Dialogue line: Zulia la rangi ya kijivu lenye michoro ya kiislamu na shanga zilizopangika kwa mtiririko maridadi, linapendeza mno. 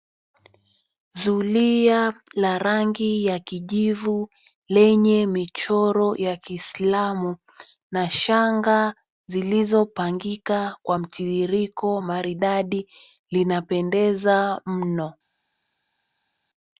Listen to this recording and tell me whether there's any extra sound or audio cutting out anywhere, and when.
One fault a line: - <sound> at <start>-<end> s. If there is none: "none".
none